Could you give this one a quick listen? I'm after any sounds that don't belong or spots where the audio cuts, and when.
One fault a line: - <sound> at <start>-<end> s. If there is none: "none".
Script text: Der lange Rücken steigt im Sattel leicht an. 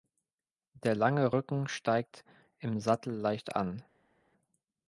none